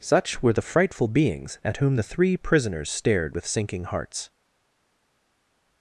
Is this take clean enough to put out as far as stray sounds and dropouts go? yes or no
yes